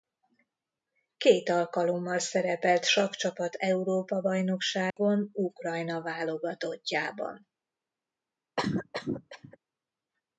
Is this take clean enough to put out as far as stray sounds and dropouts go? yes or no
no